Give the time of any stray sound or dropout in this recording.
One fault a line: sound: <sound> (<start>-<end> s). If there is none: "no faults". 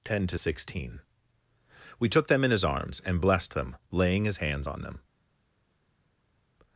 no faults